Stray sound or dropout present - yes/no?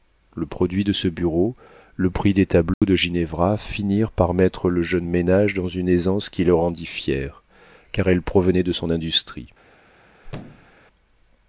yes